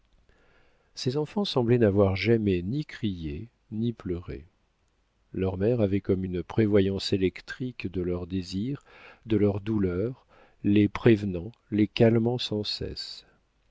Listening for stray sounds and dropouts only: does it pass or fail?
pass